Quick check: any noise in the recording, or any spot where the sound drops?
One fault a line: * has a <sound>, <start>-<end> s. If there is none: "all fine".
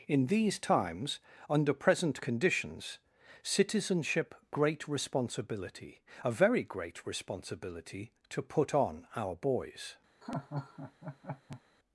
* has a laugh, 10.2-11.6 s